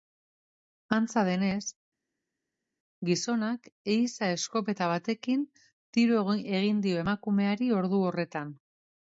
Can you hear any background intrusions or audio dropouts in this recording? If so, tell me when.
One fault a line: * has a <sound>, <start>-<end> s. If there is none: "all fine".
all fine